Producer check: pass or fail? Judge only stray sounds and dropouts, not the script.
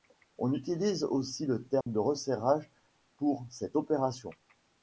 fail